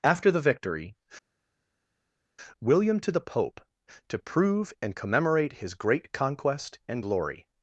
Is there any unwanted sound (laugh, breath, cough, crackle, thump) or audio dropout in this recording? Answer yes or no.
no